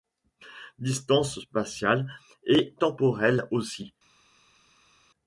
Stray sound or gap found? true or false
false